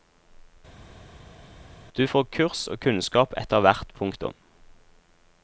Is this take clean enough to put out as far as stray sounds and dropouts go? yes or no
yes